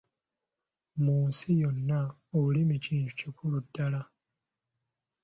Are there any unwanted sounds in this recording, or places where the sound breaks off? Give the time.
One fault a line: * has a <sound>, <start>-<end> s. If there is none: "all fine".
all fine